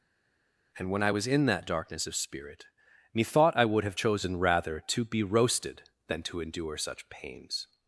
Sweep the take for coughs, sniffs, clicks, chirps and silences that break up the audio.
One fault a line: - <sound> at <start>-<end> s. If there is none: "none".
none